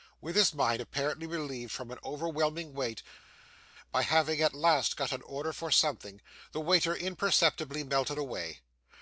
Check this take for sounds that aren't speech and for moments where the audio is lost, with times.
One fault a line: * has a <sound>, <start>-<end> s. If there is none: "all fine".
all fine